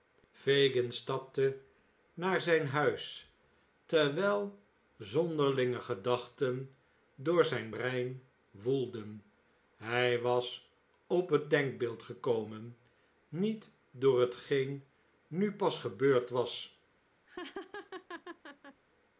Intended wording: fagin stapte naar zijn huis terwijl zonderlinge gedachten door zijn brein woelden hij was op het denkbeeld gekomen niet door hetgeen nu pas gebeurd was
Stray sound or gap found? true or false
true